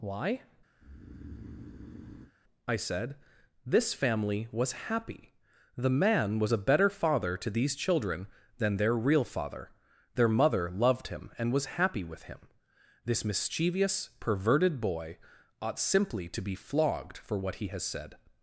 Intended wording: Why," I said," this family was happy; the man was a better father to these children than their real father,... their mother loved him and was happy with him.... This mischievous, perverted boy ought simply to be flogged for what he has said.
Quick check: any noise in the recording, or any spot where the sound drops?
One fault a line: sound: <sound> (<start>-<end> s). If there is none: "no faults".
sound: breath (0.8-2.3 s)